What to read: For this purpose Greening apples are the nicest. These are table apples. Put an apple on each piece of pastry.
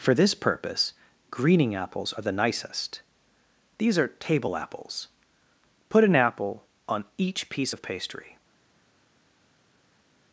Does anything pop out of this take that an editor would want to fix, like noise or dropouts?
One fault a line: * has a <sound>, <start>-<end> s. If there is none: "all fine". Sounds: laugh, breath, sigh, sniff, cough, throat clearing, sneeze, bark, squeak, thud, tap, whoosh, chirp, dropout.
all fine